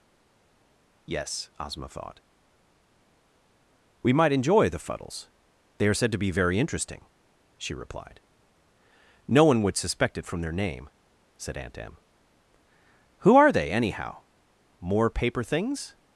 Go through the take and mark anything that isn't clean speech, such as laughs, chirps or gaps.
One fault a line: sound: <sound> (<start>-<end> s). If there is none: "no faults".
no faults